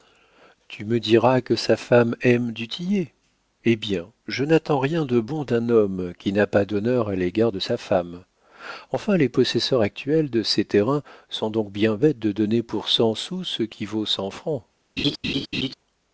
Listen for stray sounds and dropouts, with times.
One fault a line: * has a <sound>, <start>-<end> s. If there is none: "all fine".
* has a laugh, 15.0-15.7 s